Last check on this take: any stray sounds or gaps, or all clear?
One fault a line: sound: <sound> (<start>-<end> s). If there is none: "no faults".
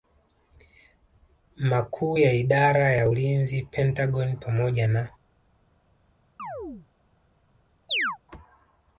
sound: chirp (6.4-6.9 s)
sound: chirp (7.9-8.2 s)